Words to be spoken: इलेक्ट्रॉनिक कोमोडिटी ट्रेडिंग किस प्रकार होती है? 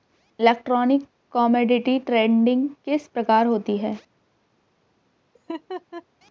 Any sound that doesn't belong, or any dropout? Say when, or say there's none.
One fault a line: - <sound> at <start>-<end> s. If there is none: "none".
- laugh at 5.3-6.0 s